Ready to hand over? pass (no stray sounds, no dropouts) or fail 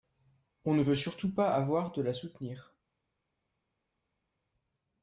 pass